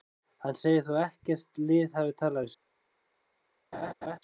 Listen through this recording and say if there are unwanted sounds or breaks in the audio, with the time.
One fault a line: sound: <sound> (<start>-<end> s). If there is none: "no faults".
sound: laugh (3.7-4.2 s)